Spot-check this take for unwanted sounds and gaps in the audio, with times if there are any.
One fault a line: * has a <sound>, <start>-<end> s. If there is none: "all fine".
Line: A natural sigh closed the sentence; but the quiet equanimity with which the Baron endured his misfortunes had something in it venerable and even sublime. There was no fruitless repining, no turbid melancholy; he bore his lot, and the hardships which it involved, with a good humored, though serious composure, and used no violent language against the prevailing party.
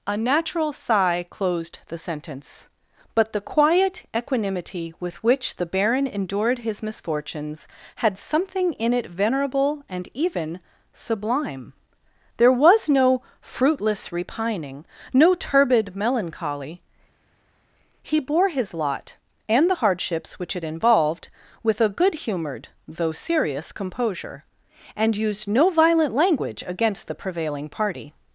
all fine